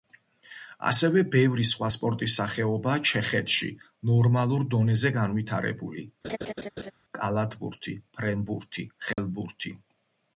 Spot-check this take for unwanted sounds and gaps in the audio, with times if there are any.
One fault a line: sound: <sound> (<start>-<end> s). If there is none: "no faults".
sound: laugh (6.2-6.9 s)
sound: dropout (9.1-9.2 s)